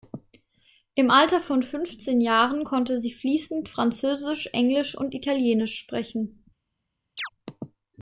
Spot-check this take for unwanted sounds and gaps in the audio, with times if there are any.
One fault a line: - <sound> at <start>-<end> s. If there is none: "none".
- chirp at 7.2-7.3 s